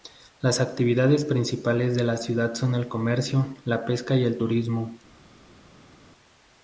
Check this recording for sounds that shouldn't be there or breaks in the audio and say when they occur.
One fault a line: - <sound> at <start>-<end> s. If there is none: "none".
none